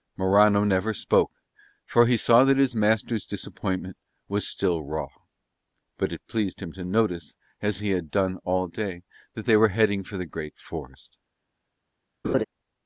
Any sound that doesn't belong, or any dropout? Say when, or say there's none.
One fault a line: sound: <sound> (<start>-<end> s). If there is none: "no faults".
sound: laugh (12.2-12.4 s)